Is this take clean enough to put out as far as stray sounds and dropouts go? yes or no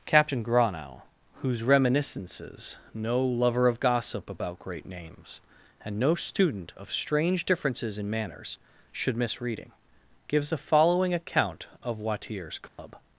no